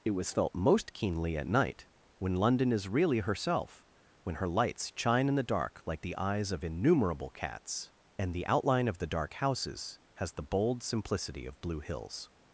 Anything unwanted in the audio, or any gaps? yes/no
no